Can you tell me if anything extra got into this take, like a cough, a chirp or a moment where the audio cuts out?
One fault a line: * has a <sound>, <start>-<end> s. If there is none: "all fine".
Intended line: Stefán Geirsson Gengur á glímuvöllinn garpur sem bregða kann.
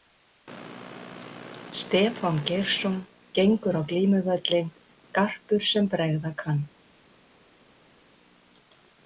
all fine